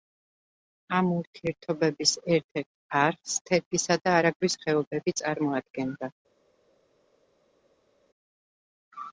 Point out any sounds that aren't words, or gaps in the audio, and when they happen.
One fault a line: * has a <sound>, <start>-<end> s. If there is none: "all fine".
all fine